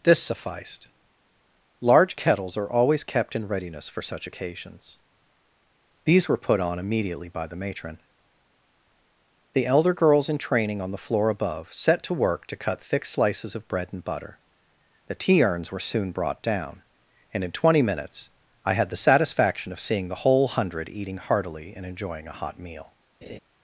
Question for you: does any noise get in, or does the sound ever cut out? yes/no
yes